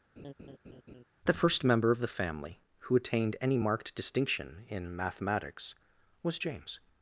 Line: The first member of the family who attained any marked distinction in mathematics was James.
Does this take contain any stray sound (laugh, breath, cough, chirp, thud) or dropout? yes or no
yes